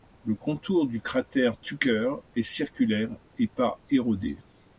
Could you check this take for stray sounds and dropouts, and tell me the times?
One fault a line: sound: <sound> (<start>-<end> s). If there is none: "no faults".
no faults